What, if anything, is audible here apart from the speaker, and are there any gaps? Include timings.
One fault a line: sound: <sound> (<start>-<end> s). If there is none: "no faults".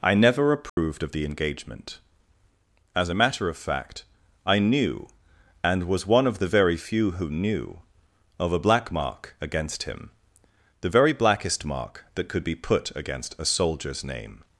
sound: dropout (0.7-0.8 s)